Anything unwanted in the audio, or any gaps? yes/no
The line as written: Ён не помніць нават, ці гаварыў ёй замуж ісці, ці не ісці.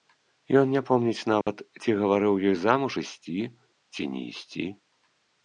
yes